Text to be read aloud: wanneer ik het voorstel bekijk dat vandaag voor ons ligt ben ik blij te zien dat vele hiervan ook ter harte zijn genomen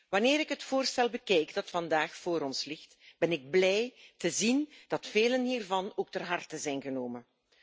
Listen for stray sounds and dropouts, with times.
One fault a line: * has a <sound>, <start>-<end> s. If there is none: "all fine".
all fine